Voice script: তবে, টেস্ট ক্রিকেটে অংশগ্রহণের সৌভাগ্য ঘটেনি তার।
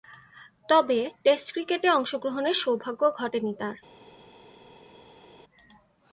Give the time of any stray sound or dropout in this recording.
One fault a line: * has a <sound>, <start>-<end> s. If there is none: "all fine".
all fine